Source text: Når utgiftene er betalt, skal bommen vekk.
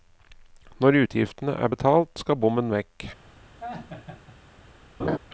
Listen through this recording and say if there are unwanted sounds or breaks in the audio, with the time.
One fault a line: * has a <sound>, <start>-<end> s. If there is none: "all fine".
* has a laugh, 3.6-4.4 s
* has a laugh, 5.0-5.2 s